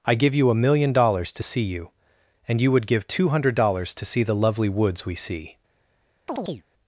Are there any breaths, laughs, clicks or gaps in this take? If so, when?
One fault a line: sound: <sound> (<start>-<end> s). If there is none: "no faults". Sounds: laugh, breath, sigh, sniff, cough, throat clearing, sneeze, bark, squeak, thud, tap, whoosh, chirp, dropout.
sound: chirp (6.3-6.6 s)